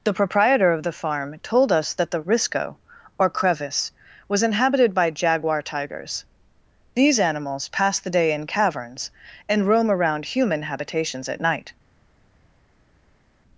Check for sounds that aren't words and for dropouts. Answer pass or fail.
pass